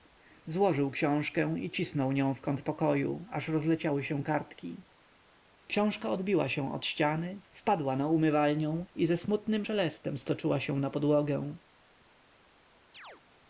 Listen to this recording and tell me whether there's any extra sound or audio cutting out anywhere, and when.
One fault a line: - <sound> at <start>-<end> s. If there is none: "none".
- chirp at 12.9-13.2 s